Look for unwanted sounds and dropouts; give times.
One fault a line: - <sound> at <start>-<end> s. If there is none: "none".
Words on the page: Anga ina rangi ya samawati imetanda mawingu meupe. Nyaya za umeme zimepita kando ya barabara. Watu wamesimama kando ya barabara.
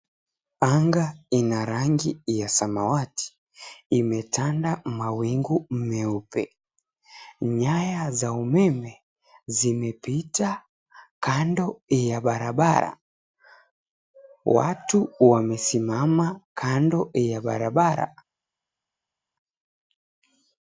none